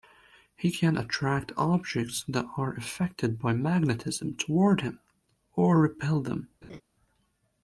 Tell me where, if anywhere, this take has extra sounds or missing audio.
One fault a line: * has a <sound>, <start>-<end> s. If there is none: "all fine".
* has a laugh, 6.6-6.8 s